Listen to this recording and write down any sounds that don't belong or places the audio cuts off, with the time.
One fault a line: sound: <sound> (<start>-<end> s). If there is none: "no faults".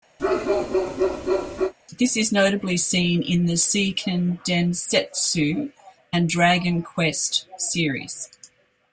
sound: bark (0.2-1.7 s)